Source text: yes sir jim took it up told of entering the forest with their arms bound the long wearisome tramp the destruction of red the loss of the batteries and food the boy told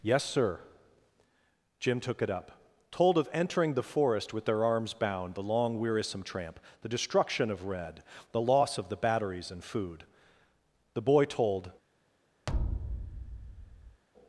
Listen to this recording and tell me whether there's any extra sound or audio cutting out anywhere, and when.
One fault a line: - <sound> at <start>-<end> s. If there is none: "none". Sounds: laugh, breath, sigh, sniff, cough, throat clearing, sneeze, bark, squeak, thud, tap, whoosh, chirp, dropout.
- thud at 12.5-14.0 s